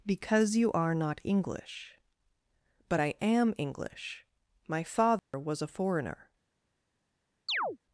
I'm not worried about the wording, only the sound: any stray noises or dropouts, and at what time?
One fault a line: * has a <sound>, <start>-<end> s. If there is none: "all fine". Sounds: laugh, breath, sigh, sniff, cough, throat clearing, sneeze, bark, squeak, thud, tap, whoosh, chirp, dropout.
* has a dropout, 5.2-5.3 s
* has a chirp, 7.5-7.8 s